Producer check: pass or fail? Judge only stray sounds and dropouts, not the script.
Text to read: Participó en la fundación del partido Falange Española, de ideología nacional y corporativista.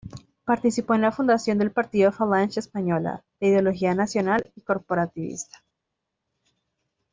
pass